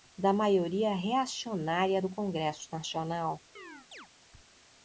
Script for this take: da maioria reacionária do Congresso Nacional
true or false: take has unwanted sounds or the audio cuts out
true